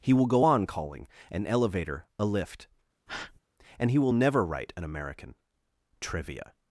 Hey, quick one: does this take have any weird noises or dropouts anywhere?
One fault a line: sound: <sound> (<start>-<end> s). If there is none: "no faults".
sound: breath (3.1-3.4 s)